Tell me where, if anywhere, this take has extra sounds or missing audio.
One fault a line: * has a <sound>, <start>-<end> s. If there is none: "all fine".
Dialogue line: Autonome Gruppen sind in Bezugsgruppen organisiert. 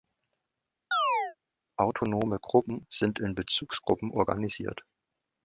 * has a chirp, 0.9-1.4 s